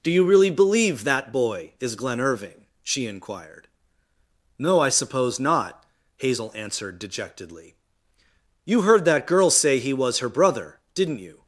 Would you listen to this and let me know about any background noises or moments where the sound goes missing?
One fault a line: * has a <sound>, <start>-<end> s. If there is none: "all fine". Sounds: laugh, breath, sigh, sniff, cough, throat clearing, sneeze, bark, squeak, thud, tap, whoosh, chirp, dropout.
all fine